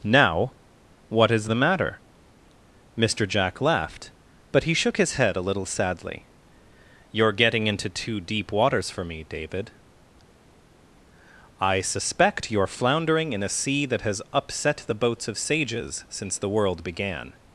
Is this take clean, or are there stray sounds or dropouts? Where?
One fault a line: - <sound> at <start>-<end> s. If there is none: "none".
none